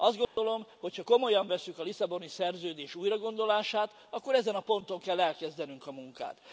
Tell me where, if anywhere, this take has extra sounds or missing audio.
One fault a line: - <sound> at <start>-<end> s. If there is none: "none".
- dropout at 0.2-0.4 s